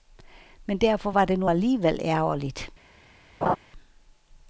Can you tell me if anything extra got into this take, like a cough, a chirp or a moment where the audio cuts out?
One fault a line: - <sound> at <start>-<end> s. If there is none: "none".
- laugh at 3.4-3.6 s